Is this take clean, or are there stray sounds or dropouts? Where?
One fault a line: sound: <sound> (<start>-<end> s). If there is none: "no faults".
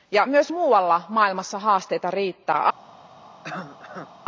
sound: cough (3.4-4.1 s)